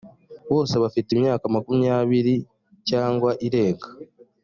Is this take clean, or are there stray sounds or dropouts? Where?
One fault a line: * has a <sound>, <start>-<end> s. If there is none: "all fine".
all fine